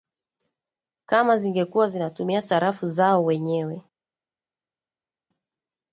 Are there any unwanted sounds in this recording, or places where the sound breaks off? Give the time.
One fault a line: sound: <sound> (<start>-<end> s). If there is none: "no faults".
no faults